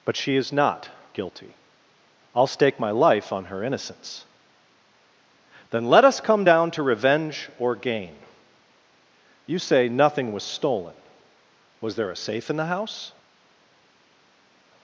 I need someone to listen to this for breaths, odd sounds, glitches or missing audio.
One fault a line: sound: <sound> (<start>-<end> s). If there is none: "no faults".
no faults